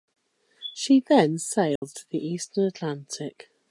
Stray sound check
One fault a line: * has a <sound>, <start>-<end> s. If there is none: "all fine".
* has a dropout, 1.8-1.8 s